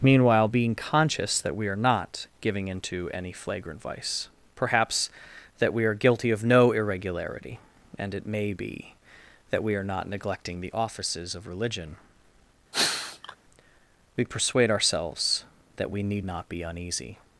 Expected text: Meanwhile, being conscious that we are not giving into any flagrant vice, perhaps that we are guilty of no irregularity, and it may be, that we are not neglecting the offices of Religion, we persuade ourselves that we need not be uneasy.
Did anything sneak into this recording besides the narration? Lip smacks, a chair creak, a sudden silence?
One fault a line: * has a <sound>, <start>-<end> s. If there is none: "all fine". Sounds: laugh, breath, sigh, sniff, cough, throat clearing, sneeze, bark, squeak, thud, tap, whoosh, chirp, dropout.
* has a sneeze, 12.7-13.4 s